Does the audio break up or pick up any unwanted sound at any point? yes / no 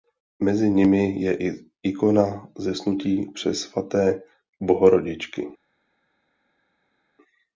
no